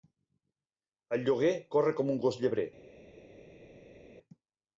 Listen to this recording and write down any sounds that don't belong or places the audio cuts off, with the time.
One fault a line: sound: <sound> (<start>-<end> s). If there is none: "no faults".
no faults